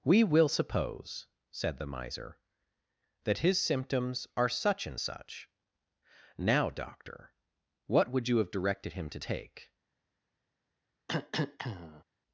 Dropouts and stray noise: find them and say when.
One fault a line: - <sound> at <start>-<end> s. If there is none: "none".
- cough at 11.1-12.0 s